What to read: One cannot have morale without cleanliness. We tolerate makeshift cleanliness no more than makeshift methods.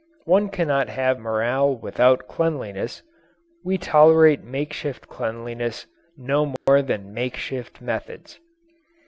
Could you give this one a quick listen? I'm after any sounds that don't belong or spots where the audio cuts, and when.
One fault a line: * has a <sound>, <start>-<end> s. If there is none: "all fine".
* has a dropout, 6.6-6.7 s